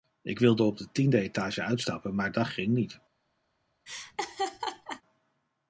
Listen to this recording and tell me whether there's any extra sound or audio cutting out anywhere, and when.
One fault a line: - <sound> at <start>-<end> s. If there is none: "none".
- laugh at 3.9-5.0 s